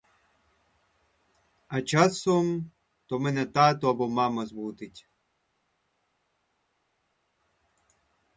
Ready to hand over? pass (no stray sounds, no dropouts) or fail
pass